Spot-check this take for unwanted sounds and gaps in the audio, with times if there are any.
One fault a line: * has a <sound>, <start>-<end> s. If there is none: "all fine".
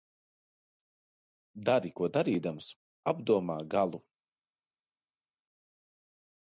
all fine